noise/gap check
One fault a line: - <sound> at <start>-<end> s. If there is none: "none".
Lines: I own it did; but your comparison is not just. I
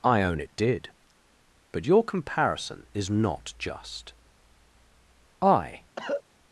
- cough at 6.0-6.2 s